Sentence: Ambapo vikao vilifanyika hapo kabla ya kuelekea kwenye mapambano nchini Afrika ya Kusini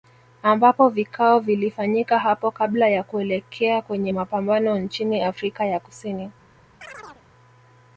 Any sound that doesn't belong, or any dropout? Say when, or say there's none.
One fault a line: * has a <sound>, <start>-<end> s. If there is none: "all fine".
* has a chirp, 6.8-7.2 s